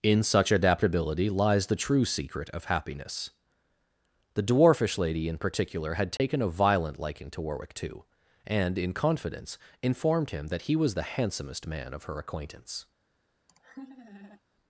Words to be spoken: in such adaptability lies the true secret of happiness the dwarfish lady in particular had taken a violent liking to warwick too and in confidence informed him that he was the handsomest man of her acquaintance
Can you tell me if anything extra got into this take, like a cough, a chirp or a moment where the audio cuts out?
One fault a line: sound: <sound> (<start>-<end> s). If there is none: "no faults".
sound: dropout (6.2-6.2 s)
sound: laugh (13.5-14.4 s)